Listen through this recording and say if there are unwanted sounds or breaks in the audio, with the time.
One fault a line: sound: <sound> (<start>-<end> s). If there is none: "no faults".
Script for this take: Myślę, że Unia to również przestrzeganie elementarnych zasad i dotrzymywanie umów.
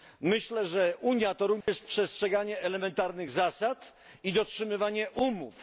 sound: dropout (1.6-1.7 s)